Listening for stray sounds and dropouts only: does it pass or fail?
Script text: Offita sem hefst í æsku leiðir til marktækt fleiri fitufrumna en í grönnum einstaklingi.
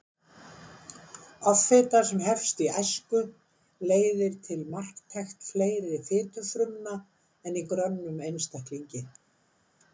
pass